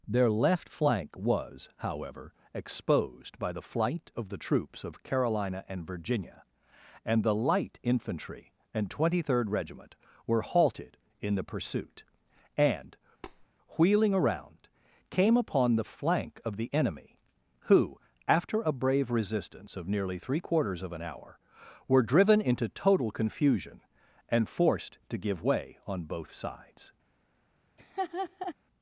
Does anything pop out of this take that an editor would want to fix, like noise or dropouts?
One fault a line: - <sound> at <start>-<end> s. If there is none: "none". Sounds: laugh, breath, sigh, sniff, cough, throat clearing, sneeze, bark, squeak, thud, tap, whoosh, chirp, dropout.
- tap at 13.2-13.5 s
- laugh at 27.8-28.5 s